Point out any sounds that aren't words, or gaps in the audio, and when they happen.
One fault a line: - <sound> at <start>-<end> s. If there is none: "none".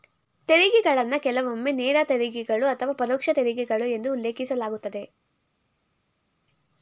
none